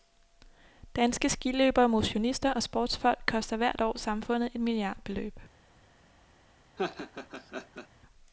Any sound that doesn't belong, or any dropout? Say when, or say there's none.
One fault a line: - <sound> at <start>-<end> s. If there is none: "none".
- laugh at 6.8-7.9 s